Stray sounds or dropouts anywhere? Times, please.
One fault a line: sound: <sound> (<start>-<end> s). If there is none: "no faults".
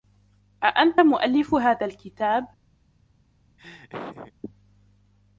sound: laugh (3.6-4.3 s)